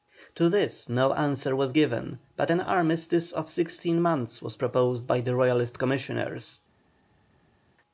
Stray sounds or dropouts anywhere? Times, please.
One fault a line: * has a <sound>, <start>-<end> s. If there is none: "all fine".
all fine